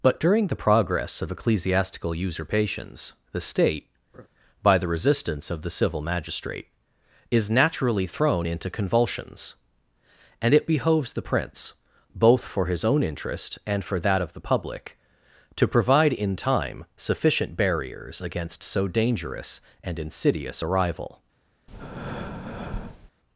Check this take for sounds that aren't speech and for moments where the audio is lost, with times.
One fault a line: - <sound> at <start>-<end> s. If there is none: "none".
- laugh at 4.1-4.3 s
- breath at 21.7-23.1 s